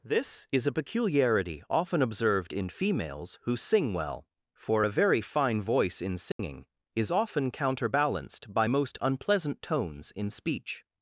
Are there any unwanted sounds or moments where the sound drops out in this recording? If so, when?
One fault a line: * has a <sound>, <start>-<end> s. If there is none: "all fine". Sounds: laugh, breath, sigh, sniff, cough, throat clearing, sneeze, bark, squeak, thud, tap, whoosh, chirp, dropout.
* has a dropout, 6.3-6.4 s